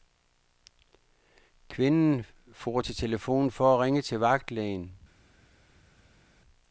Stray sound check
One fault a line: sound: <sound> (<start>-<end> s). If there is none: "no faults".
no faults